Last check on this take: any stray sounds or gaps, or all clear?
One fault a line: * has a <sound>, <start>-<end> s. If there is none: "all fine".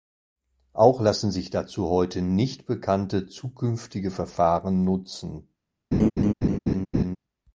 * has a laugh, 5.9-7.2 s